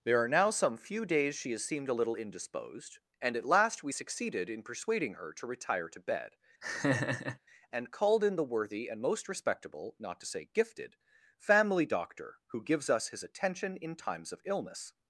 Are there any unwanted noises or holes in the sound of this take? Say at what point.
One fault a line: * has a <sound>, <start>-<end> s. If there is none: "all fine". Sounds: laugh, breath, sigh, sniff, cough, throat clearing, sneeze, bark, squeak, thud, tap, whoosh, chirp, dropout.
* has a laugh, 6.6-7.4 s